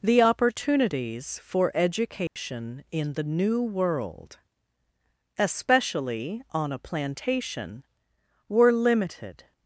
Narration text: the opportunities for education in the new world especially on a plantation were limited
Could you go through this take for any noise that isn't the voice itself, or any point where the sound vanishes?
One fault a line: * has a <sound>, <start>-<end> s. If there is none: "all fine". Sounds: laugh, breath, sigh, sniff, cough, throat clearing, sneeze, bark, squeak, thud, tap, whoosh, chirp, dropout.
* has a dropout, 2.3-2.4 s